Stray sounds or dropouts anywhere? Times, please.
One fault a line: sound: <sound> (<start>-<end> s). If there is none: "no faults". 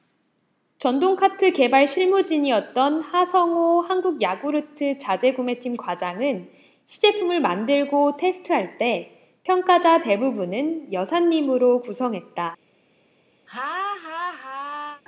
sound: laugh (13.5-15.0 s)